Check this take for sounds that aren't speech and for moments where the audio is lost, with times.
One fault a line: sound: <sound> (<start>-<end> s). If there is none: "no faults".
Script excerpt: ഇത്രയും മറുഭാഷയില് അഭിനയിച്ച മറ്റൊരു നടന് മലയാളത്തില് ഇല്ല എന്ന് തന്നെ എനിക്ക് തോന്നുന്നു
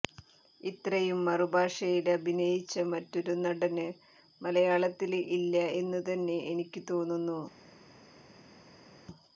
no faults